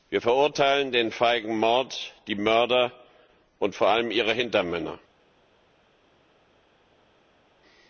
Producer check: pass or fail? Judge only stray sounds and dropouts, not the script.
pass